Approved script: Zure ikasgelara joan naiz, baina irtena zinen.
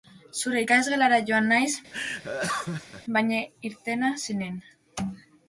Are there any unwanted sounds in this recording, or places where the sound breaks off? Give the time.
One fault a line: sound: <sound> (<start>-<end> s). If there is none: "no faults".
sound: laugh (1.9-3.0 s)